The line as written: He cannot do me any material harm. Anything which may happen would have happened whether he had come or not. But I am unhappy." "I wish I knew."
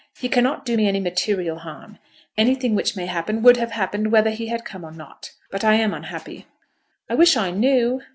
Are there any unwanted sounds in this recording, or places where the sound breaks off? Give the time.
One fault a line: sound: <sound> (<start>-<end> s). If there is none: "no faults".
no faults